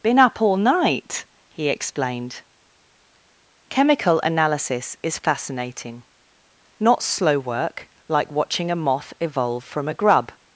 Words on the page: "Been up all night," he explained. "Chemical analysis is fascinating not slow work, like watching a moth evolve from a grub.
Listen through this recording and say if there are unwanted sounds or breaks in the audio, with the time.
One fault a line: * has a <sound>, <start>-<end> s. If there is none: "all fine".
all fine